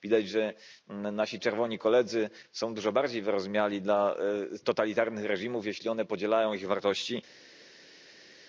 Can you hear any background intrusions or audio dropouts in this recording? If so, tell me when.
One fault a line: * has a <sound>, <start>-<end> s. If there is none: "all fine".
all fine